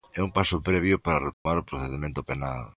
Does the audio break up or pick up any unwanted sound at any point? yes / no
yes